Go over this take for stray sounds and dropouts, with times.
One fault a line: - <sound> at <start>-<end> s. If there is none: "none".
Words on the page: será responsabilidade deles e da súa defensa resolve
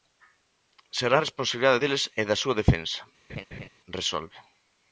- laugh at 3.3-3.7 s